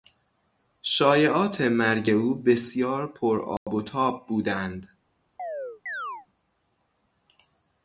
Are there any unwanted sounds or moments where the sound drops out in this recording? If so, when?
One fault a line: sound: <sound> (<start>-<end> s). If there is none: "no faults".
sound: dropout (3.6-3.7 s)
sound: chirp (5.4-6.3 s)